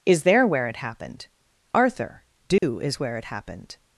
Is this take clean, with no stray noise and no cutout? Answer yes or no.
no